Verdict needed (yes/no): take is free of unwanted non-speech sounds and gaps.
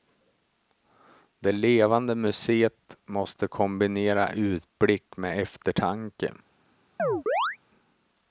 no